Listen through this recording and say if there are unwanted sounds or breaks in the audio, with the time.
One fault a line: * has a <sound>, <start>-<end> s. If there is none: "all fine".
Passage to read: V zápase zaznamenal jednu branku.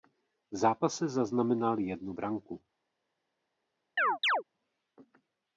* has a chirp, 4.0-4.4 s